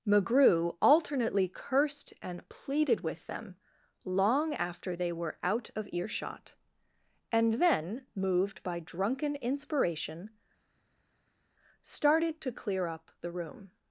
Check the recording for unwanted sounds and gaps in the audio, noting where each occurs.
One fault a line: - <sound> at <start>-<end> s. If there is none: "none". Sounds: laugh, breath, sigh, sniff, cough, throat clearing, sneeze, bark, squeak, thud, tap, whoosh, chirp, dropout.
none